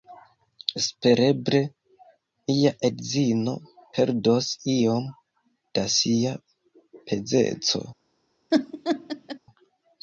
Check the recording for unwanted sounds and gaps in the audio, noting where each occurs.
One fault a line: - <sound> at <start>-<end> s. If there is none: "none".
- laugh at 8.5-9.4 s